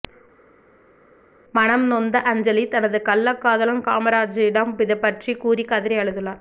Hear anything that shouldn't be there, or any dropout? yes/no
no